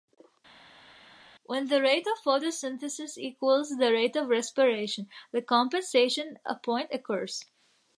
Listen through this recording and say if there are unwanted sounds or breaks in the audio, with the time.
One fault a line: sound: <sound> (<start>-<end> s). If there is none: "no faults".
no faults